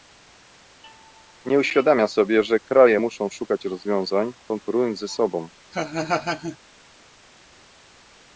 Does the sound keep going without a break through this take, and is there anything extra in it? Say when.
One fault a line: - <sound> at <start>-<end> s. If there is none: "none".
- laugh at 5.7-6.6 s